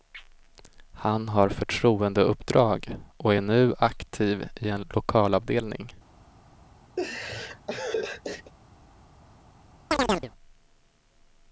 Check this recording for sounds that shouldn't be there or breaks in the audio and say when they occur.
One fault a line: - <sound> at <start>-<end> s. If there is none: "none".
- laugh at 7.0-8.5 s
- chirp at 9.9-10.3 s